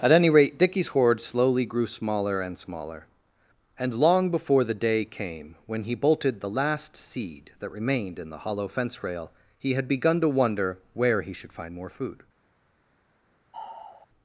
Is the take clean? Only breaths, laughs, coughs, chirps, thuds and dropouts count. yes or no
no